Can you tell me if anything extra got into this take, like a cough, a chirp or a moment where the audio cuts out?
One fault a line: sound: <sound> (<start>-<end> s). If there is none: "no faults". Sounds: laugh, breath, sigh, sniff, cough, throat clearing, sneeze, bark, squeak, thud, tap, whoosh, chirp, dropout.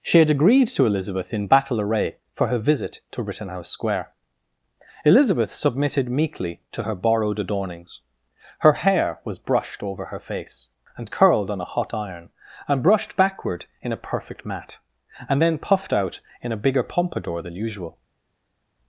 no faults